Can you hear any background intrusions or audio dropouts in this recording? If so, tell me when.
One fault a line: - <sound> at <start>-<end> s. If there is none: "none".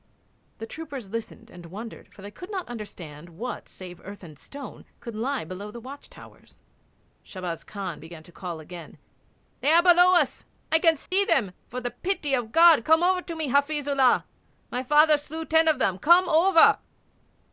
- dropout at 11.1-11.1 s